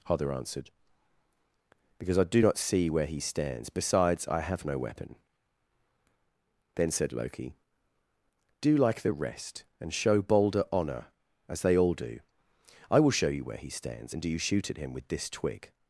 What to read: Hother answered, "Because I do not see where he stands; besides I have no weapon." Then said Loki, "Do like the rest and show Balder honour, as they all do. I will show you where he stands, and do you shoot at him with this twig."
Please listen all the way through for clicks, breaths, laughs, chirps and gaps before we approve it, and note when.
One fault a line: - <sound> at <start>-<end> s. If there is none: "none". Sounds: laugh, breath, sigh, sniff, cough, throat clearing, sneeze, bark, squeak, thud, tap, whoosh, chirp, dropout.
none